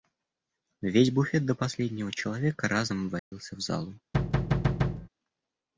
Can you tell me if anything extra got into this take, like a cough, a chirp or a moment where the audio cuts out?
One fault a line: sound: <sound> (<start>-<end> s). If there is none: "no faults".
sound: dropout (3.2-3.3 s)
sound: thud (4.1-5.1 s)